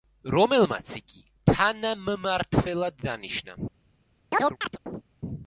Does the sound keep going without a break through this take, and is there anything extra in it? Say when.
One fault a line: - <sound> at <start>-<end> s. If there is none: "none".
- chirp at 4.3-5.0 s